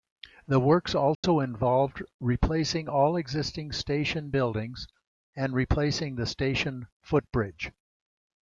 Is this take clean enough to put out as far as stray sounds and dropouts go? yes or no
no